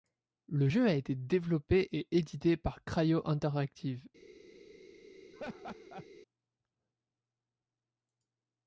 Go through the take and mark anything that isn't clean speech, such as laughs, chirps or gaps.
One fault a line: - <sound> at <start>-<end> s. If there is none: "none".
- laugh at 5.3-6.1 s